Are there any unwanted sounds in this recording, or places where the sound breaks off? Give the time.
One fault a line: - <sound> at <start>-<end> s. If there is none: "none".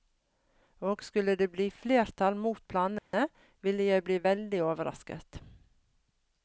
- dropout at 3.0-3.1 s